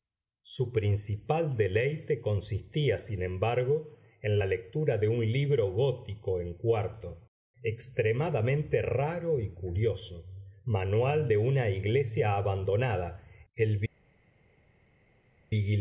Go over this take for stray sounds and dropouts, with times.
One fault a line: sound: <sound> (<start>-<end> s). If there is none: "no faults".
no faults